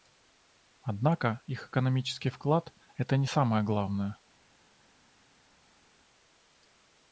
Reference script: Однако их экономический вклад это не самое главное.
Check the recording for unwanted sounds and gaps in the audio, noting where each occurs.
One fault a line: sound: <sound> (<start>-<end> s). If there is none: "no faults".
no faults